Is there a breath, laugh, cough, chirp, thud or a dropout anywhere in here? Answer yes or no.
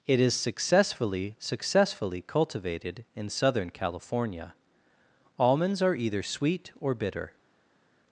no